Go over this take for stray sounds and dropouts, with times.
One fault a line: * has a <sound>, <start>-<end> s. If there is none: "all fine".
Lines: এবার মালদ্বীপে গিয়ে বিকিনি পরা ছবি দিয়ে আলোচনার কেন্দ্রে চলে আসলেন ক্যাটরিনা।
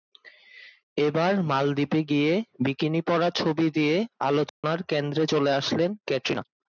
* has a dropout, 4.5-4.6 s